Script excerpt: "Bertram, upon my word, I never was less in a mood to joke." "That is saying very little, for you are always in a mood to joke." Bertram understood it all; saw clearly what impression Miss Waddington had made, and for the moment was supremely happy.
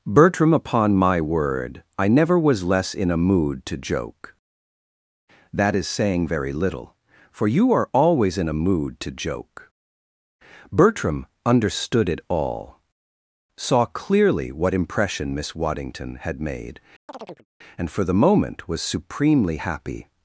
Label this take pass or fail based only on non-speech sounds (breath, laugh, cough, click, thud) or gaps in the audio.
fail